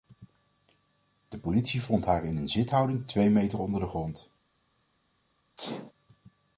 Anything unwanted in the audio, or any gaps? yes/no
yes